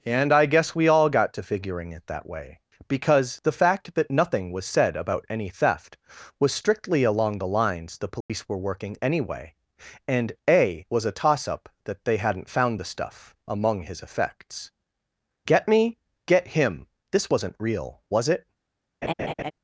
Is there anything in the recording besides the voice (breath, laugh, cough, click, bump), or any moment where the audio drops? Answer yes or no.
yes